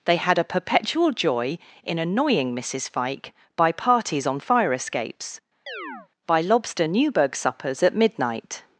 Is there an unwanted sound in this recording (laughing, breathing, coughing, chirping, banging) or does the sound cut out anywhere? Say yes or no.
yes